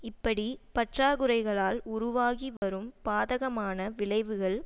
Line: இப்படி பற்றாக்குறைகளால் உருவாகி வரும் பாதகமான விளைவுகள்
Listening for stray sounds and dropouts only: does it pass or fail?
fail